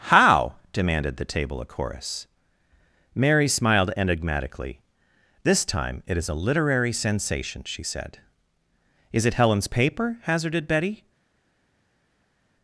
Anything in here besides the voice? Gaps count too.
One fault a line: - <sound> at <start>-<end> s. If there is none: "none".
none